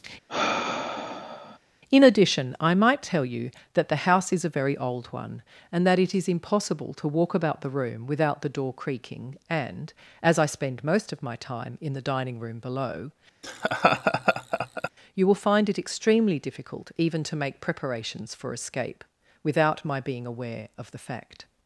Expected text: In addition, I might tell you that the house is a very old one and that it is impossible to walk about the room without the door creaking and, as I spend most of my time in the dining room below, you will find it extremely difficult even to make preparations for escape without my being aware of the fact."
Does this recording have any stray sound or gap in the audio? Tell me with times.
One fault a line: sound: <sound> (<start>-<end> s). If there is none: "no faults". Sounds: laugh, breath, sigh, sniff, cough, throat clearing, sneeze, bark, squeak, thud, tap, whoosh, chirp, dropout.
sound: sigh (0.3-1.6 s)
sound: laugh (13.4-14.9 s)